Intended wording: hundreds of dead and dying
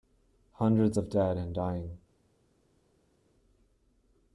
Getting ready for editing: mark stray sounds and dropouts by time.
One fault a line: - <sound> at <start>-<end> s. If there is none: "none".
none